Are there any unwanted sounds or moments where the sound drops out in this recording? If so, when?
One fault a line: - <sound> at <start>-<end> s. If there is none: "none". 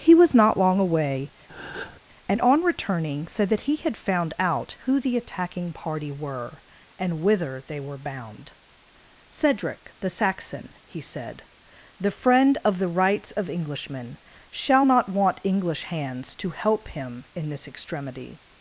- breath at 1.5-2.0 s